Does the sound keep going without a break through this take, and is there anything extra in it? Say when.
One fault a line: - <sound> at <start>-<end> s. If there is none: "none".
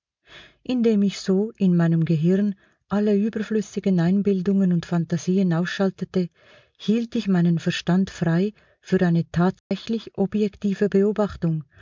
- dropout at 9.6-9.7 s